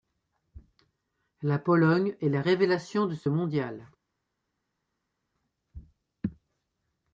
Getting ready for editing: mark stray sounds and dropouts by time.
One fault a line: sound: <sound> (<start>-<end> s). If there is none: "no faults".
no faults